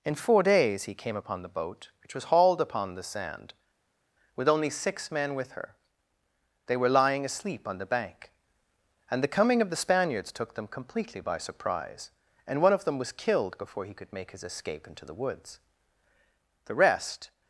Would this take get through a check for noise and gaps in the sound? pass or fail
pass